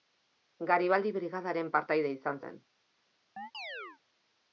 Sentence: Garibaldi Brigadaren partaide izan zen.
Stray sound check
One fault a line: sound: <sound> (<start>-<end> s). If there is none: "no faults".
sound: chirp (3.4-4.0 s)